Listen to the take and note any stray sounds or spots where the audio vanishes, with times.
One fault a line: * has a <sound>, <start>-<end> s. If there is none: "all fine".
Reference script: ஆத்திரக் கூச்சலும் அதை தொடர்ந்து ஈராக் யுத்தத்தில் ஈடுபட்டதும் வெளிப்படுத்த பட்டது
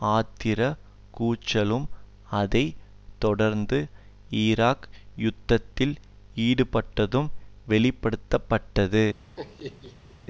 * has a laugh, 9.3-10.2 s